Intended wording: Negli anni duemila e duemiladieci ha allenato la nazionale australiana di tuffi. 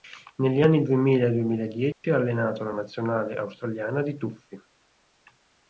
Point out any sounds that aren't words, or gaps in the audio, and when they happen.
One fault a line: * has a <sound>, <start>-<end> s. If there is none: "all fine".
* has a dropout, 1.9-2.0 s